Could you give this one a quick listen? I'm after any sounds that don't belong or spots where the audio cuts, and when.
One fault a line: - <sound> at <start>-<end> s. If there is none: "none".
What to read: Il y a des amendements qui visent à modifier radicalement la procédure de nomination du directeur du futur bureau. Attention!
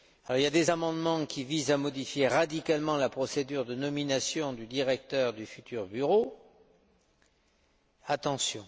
none